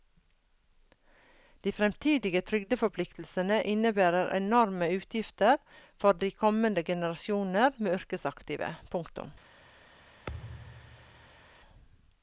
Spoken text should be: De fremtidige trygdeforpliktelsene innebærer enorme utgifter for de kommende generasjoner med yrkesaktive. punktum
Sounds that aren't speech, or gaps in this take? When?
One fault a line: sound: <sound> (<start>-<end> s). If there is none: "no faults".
sound: thud (10.3-11.6 s)